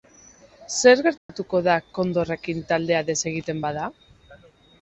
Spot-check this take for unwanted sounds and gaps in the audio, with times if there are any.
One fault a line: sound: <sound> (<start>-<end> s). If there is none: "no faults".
sound: dropout (1.2-1.3 s)